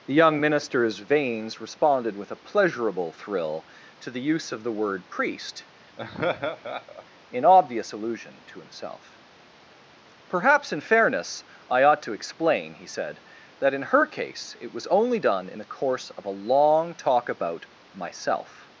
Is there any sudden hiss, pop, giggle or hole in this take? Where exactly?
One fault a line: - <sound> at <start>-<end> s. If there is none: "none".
- laugh at 6.0-7.1 s